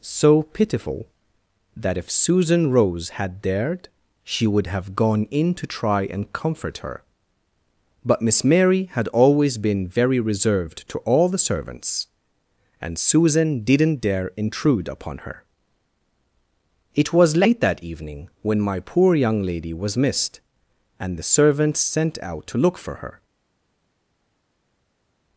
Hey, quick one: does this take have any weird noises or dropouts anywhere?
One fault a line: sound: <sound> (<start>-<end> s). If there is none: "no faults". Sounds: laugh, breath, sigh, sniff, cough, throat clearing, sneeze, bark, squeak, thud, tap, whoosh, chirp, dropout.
no faults